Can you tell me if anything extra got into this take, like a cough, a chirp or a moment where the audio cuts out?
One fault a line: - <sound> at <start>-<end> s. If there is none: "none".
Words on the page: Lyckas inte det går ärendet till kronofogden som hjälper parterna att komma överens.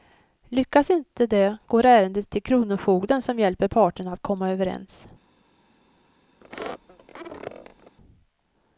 - squeak at 6.4-8.0 s